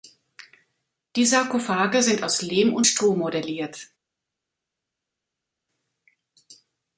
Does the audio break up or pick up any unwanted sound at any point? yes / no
no